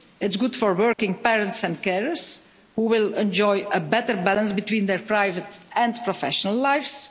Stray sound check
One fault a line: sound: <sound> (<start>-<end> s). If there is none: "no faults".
sound: dropout (0.9-1.0 s)